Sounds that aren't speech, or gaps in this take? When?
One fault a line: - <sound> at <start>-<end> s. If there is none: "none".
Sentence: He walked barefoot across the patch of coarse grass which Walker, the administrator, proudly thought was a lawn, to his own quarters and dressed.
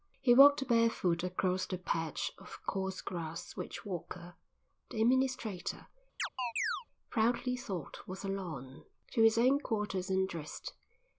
- chirp at 6.2-6.9 s